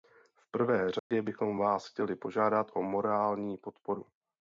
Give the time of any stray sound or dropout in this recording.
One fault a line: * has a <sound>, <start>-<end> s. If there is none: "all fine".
* has a dropout, 1.0-1.1 s